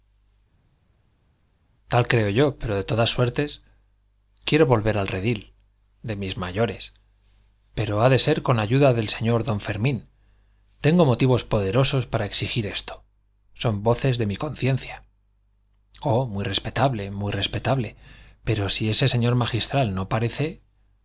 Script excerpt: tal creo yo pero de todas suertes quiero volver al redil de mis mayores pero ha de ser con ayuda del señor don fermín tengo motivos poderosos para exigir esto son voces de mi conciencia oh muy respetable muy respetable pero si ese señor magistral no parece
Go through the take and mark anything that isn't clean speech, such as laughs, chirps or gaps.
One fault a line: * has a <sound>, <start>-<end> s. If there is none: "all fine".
all fine